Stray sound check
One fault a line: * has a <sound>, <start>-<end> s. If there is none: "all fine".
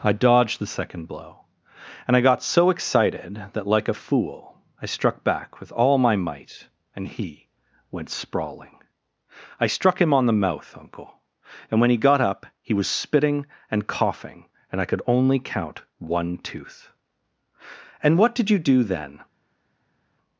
all fine